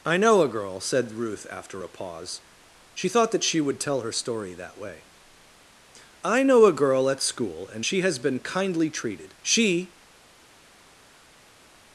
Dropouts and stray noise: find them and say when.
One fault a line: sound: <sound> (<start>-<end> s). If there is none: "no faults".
no faults